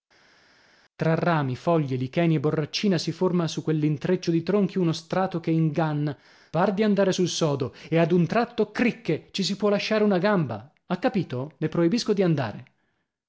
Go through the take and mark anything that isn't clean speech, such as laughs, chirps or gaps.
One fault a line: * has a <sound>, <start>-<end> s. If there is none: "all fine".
all fine